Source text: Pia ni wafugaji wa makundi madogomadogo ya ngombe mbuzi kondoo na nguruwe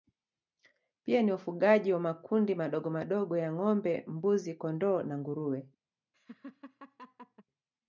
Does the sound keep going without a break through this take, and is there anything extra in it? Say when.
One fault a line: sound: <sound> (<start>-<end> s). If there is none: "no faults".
sound: laugh (6.1-7.4 s)